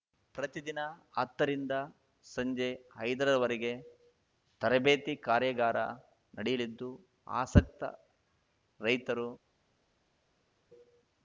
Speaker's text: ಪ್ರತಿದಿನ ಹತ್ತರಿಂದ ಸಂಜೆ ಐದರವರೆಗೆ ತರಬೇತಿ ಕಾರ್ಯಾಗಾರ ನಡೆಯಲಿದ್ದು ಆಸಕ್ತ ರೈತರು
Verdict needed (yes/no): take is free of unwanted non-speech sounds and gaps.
yes